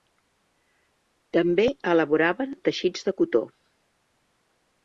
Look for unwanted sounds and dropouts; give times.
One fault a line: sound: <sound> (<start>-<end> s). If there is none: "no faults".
no faults